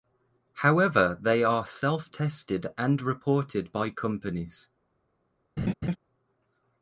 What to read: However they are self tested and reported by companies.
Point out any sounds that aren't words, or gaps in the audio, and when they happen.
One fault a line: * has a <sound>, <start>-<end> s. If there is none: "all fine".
* has a laugh, 5.6-6.0 s